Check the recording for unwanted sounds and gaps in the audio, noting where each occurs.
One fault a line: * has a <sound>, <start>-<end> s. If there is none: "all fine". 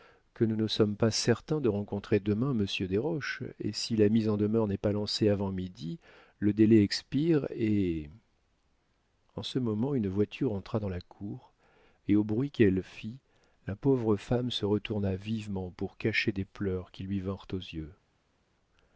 all fine